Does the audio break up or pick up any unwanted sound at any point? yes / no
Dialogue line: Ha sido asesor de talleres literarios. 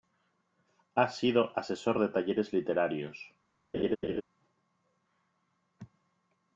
yes